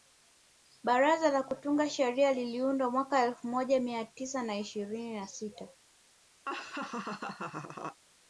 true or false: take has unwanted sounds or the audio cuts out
true